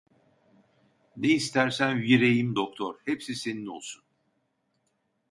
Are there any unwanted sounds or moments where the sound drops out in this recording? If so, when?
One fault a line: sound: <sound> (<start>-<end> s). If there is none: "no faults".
no faults